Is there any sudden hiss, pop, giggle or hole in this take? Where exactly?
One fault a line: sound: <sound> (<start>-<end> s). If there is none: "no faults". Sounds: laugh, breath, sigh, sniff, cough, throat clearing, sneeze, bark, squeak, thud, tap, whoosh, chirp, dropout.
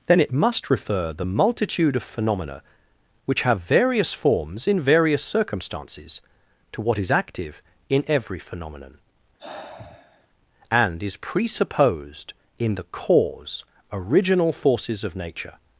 sound: sigh (9.4-10.3 s)